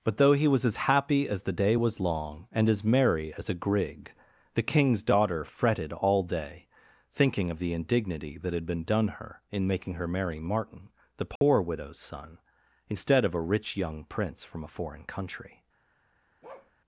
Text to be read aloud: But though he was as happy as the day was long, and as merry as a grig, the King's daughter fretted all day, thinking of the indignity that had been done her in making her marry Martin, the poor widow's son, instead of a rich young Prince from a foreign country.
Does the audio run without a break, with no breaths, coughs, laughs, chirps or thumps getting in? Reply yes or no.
no